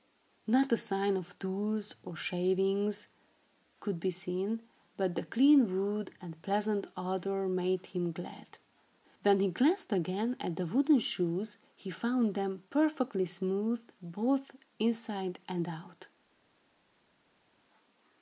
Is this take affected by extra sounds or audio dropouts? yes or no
no